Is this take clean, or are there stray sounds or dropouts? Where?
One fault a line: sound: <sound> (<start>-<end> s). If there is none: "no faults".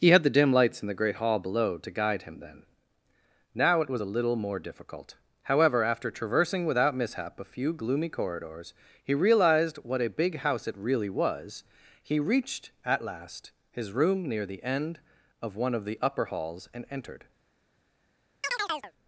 sound: chirp (18.4-18.9 s)